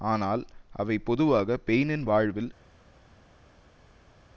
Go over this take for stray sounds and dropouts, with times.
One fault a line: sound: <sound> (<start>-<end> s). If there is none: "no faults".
no faults